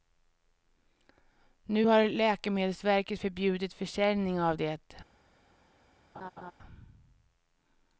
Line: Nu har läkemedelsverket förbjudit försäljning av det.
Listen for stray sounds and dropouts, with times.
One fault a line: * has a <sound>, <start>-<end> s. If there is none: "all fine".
* has a laugh, 6.1-6.5 s